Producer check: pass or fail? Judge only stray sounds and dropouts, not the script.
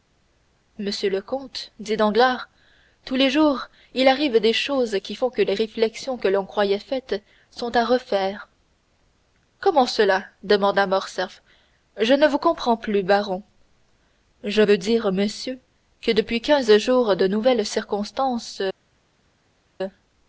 pass